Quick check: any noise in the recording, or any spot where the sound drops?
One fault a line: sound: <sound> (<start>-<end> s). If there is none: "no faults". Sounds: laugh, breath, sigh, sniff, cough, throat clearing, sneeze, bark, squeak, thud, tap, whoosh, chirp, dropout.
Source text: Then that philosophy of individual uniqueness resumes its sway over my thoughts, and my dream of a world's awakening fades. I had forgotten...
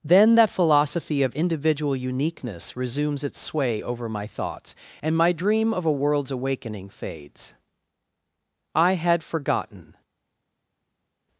no faults